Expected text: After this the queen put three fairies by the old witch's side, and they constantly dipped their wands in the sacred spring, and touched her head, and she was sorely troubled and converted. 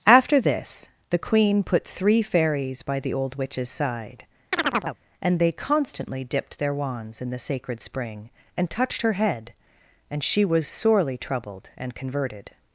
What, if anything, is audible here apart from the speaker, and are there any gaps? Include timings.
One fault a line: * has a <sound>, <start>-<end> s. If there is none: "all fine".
* has a chirp, 4.5-5.0 s